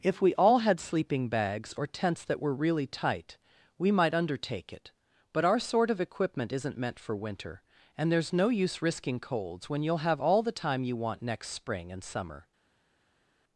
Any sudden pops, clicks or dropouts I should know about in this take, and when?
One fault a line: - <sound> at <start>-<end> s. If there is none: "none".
none